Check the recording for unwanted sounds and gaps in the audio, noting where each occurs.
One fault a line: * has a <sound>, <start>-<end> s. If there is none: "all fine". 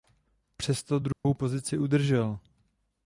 * has a dropout, 1.1-1.2 s